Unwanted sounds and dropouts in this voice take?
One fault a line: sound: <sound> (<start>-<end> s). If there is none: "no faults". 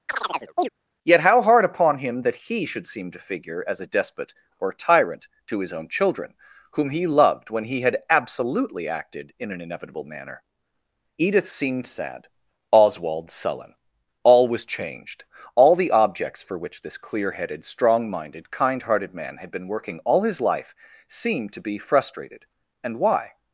sound: chirp (0.1-0.7 s)